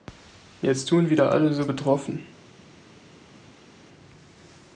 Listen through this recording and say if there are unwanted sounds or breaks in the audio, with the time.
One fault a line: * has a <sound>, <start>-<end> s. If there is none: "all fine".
all fine